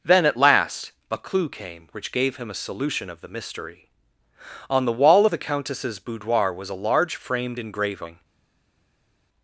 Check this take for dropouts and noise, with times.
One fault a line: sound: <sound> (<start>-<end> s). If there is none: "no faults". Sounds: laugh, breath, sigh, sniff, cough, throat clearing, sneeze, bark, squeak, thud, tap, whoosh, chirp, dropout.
no faults